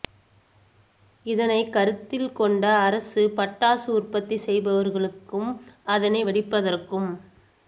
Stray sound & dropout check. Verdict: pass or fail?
pass